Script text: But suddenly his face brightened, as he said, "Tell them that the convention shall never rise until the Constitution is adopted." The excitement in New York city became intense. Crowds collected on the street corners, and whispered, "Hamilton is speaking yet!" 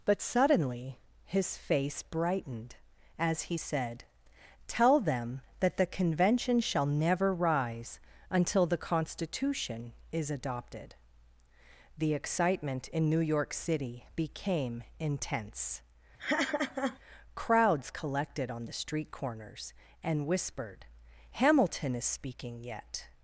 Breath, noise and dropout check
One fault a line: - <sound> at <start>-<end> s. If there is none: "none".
- laugh at 16.2-17.0 s